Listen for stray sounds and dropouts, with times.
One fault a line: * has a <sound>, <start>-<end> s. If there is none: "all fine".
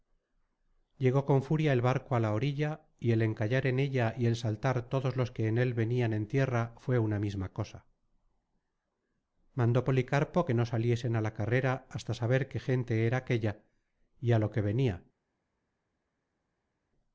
all fine